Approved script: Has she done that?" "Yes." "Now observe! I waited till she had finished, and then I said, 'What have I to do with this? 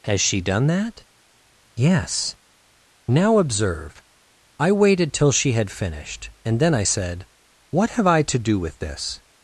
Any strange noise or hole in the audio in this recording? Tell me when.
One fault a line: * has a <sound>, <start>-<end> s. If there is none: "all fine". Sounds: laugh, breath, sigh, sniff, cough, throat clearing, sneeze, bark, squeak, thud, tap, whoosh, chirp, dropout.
all fine